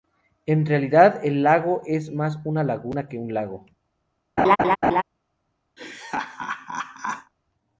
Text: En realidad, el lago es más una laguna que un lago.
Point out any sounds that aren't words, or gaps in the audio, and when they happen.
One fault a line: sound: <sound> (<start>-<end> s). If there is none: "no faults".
sound: laugh (4.4-5.0 s)
sound: laugh (5.8-7.3 s)